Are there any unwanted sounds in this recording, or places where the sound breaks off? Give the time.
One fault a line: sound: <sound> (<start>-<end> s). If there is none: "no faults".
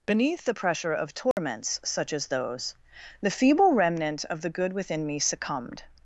sound: dropout (1.3-1.4 s)